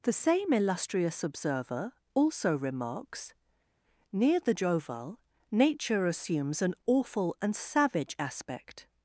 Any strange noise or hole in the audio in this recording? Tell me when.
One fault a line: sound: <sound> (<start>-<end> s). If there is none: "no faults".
no faults